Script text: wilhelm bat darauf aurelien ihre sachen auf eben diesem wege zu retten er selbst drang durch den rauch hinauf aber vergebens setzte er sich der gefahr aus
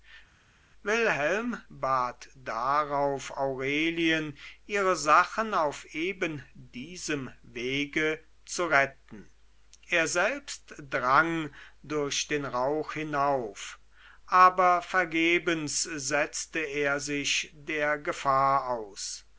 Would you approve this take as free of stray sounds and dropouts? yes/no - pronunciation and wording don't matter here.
yes